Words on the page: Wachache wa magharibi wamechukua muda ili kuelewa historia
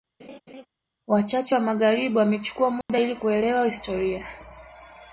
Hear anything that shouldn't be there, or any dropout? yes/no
yes